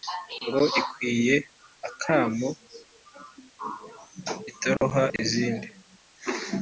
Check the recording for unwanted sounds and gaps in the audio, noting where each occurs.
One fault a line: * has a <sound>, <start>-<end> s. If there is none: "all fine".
* has a dropout, 4.8-4.8 s